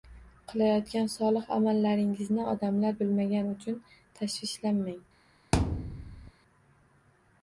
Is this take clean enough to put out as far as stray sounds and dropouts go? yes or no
no